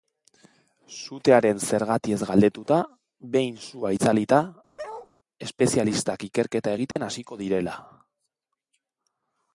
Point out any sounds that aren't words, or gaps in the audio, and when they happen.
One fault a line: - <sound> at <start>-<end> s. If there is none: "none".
- bark at 4.8-5.1 s
- dropout at 6.9-7.0 s